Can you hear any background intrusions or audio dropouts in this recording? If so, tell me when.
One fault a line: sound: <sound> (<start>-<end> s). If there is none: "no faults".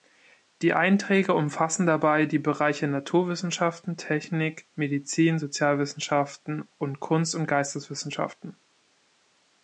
no faults